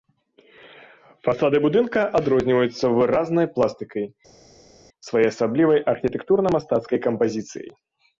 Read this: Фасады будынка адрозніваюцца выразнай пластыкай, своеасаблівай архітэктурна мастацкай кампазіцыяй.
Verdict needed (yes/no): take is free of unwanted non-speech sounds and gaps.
yes